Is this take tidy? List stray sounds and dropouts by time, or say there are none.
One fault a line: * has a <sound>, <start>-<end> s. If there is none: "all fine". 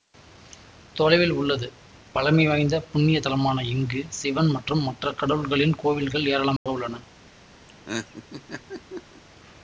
* has a dropout, 6.6-6.7 s
* has a laugh, 7.7-9.2 s